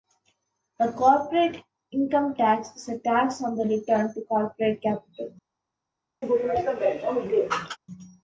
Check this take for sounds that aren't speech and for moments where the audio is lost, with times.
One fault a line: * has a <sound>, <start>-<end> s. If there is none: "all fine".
* has a sneeze, 6.2-7.8 s